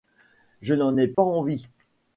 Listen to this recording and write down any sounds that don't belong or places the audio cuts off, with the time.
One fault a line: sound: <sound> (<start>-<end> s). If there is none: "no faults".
sound: dropout (1.1-1.2 s)